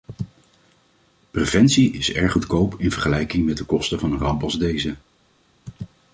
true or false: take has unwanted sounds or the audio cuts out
false